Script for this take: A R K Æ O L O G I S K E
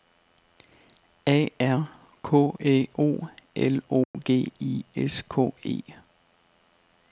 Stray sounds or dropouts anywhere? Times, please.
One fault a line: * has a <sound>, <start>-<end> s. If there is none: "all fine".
* has a dropout, 4.0-4.1 s